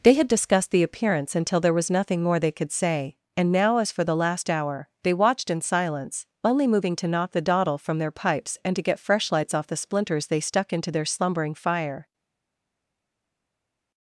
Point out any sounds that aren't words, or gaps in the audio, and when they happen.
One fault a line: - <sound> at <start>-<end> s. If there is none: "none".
none